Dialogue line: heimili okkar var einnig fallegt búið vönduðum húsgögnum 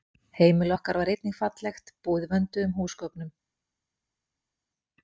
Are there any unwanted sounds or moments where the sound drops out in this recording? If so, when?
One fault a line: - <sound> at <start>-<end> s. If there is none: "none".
none